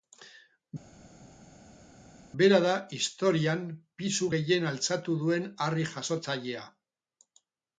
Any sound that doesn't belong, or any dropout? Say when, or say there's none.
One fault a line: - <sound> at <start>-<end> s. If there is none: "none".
none